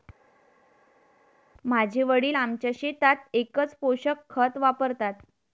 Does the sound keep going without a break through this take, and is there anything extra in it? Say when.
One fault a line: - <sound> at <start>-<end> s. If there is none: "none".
none